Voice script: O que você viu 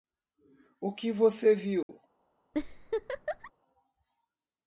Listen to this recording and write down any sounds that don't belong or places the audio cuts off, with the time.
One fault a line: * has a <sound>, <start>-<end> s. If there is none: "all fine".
* has a dropout, 1.8-1.9 s
* has a laugh, 2.5-3.5 s